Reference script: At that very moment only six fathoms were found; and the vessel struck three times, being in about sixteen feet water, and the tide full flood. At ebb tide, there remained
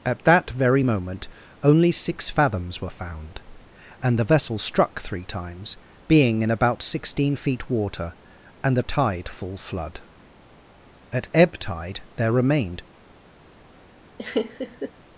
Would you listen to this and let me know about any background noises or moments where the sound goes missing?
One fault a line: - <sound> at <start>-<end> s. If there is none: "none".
- laugh at 14.2-14.9 s